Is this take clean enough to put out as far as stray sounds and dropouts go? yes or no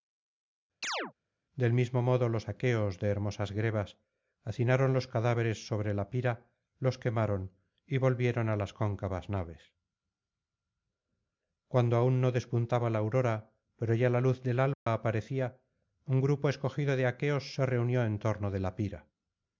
no